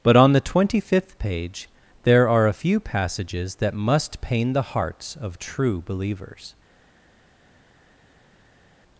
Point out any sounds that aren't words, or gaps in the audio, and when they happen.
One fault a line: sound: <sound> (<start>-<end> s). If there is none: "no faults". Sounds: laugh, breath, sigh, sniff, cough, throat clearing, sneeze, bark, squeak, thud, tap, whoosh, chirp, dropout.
no faults